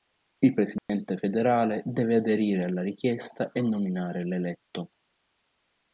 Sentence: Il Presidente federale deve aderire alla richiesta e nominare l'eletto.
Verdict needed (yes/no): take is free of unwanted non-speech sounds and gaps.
no